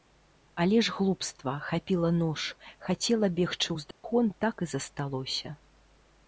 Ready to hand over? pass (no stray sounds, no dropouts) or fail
fail